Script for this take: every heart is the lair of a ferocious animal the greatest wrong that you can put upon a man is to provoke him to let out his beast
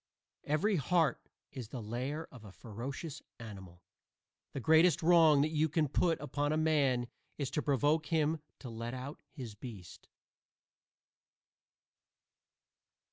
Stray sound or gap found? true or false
false